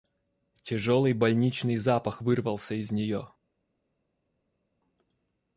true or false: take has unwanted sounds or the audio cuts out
false